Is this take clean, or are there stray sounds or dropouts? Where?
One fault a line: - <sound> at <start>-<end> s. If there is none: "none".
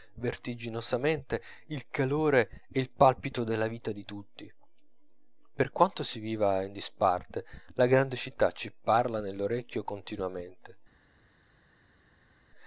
none